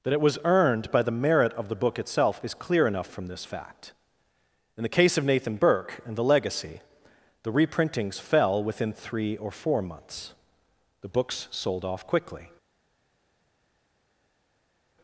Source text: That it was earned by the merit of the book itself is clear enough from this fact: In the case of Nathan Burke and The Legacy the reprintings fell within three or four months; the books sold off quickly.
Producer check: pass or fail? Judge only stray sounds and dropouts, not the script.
pass